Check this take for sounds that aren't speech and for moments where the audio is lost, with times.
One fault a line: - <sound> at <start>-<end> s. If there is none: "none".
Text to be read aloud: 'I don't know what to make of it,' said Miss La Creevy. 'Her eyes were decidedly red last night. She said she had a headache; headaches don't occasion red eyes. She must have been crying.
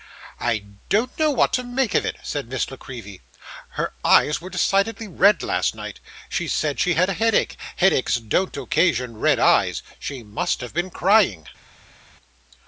none